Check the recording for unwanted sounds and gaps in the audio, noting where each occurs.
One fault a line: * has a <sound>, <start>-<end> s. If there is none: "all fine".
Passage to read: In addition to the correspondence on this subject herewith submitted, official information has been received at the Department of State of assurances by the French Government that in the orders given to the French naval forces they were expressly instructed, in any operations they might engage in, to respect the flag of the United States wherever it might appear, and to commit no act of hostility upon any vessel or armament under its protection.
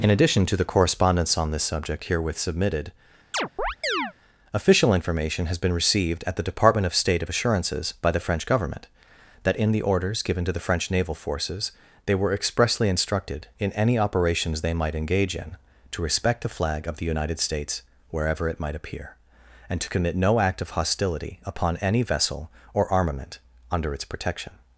* has a chirp, 3.3-4.1 s